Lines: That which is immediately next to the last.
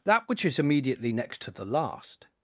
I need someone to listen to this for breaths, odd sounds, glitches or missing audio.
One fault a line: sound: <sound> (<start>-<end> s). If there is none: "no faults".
no faults